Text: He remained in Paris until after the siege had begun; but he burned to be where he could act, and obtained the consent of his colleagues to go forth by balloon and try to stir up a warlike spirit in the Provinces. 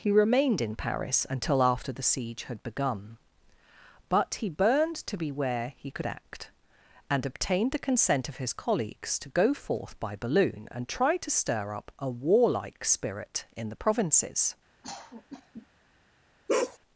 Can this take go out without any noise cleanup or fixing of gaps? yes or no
no